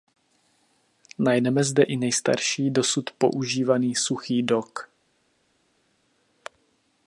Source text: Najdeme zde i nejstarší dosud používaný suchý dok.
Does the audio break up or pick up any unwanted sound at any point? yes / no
no